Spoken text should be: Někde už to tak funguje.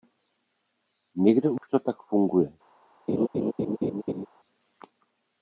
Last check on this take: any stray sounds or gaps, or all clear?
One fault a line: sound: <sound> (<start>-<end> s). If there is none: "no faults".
sound: dropout (1.6-1.6 s)
sound: laugh (3.1-4.3 s)